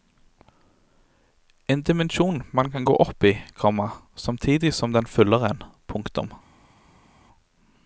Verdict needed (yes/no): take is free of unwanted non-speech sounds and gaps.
yes